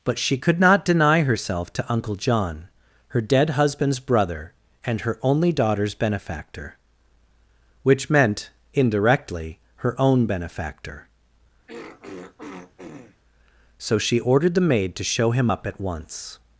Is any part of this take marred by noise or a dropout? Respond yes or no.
yes